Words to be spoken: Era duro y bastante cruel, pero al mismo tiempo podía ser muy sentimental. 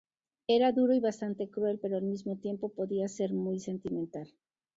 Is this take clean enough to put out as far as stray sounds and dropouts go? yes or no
yes